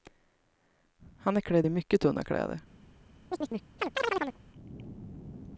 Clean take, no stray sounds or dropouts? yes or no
no